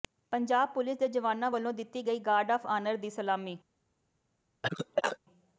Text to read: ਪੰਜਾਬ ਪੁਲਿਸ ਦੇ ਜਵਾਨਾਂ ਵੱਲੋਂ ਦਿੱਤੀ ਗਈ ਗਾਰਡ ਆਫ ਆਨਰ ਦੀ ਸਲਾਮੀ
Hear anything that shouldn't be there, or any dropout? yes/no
yes